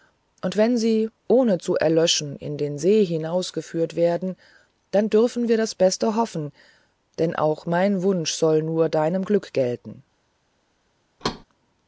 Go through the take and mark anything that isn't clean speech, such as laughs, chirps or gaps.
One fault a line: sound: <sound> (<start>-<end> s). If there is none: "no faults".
sound: thud (11.2-11.4 s)